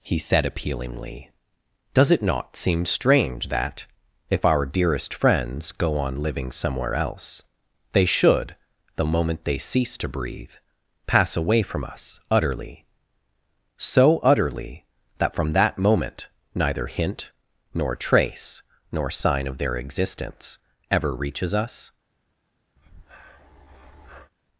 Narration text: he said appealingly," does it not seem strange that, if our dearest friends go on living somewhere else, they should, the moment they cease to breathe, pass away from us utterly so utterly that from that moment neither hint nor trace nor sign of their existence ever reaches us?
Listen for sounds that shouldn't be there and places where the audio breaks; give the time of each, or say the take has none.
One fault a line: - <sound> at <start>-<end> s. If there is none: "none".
- breath at 22.8-24.3 s